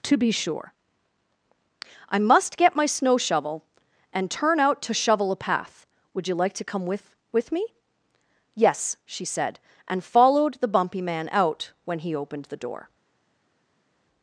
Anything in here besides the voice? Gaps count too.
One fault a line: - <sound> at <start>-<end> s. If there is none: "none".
none